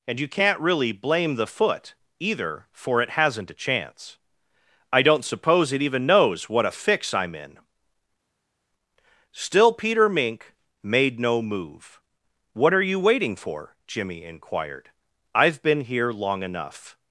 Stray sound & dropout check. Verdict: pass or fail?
pass